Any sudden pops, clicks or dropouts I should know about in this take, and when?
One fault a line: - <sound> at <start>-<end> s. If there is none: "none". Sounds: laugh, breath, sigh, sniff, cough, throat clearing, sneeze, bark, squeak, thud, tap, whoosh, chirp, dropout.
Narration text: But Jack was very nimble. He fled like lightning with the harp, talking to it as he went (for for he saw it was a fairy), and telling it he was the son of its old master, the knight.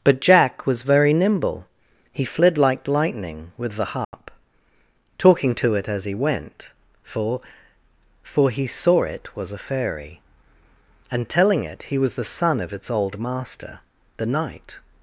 - dropout at 4.0-4.1 s